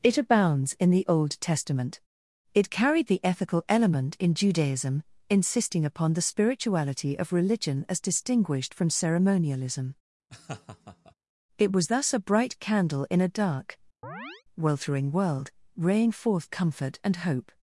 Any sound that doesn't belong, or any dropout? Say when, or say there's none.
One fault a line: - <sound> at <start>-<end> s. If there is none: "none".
- laugh at 10.3-11.1 s
- chirp at 14.0-14.4 s